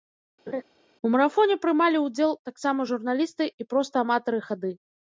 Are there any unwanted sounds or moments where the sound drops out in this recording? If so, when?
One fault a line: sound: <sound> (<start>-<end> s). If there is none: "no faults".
sound: laugh (0.5-0.6 s)